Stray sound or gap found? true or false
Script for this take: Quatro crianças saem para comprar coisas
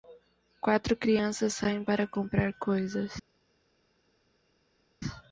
false